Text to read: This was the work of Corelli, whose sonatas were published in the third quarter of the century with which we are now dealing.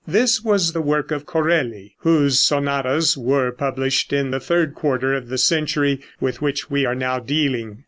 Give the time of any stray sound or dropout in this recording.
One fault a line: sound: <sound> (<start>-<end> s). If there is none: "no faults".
no faults